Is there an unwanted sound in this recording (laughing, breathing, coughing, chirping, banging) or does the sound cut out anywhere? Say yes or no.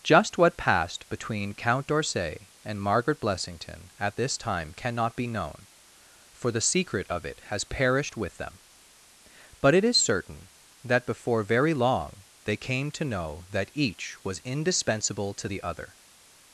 no